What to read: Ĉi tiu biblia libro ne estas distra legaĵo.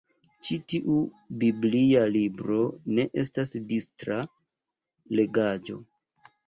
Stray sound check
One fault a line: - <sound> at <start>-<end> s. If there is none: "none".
none